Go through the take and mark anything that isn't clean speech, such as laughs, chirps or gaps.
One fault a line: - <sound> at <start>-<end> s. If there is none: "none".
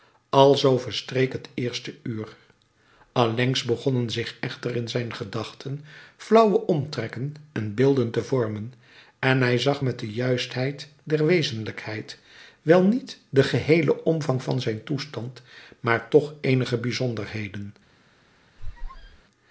- squeak at 18.6-19.2 s